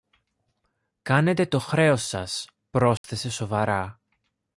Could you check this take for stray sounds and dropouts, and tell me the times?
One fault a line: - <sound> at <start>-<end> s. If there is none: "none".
- dropout at 3.0-3.0 s